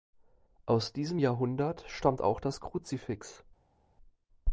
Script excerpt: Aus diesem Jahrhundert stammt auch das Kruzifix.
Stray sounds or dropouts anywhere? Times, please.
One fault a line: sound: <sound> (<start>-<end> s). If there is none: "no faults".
no faults